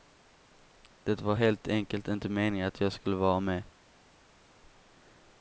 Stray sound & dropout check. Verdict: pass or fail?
pass